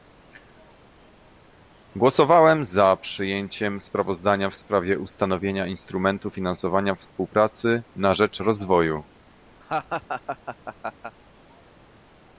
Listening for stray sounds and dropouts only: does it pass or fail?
fail